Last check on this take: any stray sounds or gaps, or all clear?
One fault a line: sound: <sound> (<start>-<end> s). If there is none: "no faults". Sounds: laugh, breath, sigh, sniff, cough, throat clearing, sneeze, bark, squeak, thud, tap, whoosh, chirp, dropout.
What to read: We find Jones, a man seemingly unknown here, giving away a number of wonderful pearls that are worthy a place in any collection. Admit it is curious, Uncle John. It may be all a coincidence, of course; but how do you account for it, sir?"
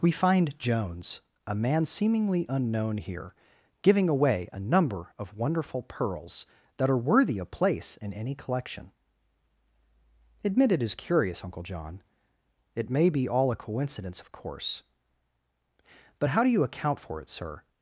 no faults